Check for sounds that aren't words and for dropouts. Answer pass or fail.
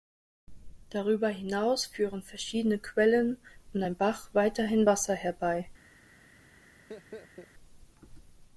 fail